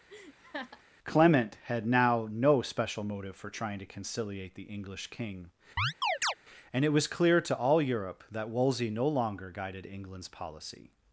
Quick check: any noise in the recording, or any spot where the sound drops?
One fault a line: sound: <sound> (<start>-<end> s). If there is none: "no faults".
sound: laugh (0.1-0.8 s)
sound: chirp (5.8-6.3 s)